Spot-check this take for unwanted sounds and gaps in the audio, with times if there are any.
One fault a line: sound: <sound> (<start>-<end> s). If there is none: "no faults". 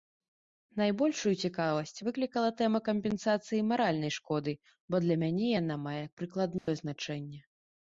sound: dropout (6.6-6.7 s)